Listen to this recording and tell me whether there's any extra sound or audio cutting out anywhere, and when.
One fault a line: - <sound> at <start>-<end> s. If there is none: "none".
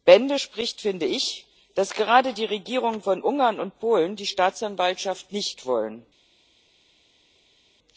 none